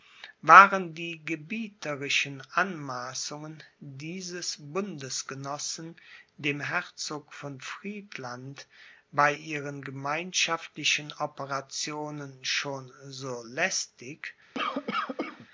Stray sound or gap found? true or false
true